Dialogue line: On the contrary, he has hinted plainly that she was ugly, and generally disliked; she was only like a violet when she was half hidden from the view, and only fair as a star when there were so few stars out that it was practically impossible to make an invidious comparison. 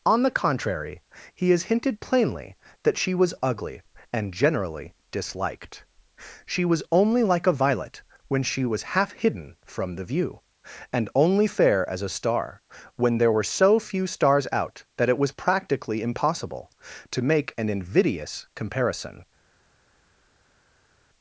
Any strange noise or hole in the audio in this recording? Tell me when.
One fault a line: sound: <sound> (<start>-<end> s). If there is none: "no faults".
no faults